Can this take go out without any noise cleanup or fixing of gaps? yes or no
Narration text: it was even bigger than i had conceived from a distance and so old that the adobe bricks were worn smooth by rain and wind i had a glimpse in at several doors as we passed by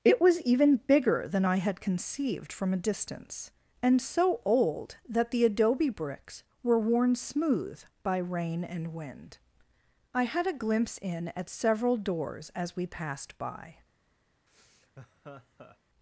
no